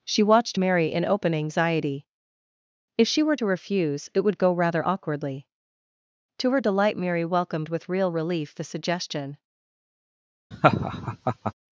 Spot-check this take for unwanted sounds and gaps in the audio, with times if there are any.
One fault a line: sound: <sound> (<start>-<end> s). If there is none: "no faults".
sound: laugh (10.5-11.5 s)